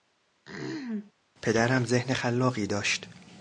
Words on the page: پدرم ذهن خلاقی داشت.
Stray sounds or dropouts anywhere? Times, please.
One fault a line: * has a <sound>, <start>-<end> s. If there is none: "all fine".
* has a throat clearing, 0.4-1.1 s